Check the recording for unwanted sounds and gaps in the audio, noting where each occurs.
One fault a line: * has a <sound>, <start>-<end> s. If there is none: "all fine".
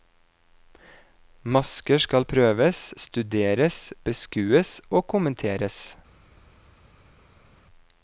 all fine